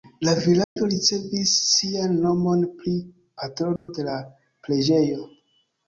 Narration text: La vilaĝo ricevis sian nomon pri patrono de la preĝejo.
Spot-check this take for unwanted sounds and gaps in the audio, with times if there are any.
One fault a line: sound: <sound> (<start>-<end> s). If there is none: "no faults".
sound: dropout (0.6-0.8 s)
sound: dropout (3.8-3.9 s)